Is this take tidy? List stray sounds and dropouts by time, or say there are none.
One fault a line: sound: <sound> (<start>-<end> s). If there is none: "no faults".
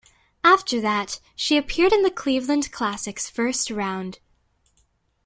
no faults